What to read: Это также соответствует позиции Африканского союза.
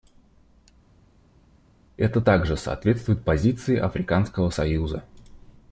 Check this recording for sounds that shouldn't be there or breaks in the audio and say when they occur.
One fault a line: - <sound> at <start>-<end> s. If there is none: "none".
none